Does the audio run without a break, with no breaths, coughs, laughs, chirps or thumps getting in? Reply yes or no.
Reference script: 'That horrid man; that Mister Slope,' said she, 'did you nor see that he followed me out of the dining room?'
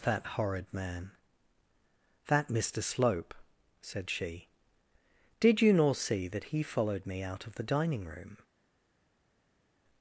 yes